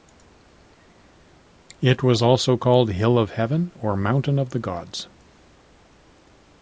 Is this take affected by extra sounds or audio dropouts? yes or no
no